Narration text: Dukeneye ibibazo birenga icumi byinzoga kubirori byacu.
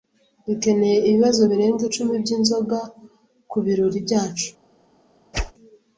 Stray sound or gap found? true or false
true